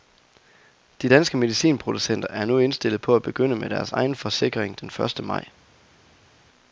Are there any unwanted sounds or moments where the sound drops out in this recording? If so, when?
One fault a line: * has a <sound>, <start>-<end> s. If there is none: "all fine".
all fine